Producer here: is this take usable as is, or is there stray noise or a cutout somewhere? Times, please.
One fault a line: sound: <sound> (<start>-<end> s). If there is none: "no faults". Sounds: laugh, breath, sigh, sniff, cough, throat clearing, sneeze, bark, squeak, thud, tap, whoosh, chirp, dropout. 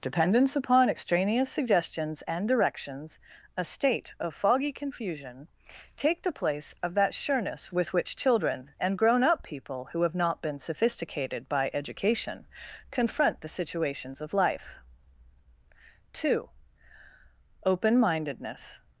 no faults